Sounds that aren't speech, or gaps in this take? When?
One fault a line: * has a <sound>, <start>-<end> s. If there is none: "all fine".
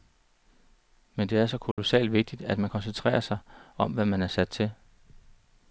* has a dropout, 1.7-1.8 s